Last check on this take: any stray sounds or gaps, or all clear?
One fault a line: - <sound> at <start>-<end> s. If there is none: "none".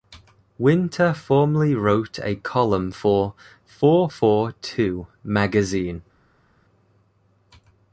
none